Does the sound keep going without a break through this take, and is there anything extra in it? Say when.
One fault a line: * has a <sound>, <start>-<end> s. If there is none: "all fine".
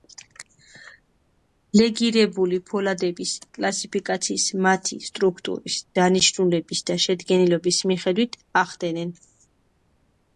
all fine